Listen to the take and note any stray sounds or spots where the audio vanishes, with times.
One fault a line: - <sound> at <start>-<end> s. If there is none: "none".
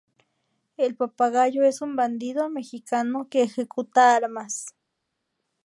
none